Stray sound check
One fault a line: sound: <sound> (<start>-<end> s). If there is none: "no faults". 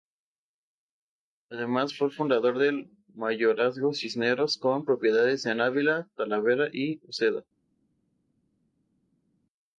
no faults